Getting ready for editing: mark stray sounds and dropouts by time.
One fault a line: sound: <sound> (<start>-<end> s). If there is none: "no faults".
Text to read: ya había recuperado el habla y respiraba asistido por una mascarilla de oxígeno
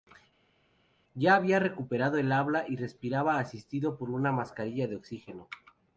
no faults